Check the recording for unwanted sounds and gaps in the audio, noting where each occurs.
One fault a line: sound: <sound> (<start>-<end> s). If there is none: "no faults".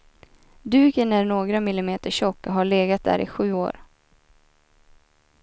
no faults